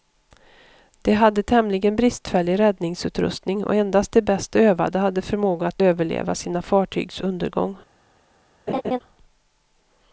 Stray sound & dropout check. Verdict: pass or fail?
fail